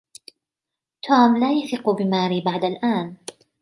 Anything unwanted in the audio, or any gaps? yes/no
no